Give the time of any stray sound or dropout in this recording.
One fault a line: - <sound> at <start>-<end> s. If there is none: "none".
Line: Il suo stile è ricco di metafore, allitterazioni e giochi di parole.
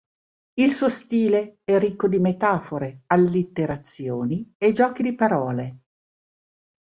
none